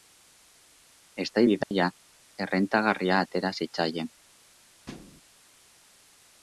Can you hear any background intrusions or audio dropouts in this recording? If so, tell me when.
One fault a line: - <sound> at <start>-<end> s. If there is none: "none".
- dropout at 1.6-1.7 s
- thud at 4.9-5.2 s